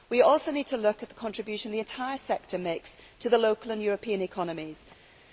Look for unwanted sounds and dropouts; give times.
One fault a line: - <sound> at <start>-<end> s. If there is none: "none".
none